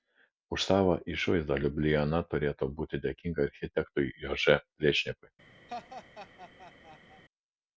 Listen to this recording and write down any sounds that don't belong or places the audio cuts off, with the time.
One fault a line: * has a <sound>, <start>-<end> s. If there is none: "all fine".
* has a laugh, 5.7-7.2 s